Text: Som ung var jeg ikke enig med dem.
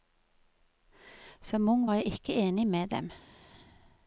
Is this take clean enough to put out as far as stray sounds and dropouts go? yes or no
yes